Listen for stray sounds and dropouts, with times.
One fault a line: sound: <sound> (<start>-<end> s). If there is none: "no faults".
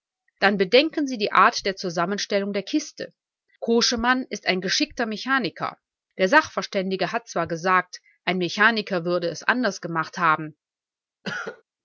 sound: cough (11.2-11.6 s)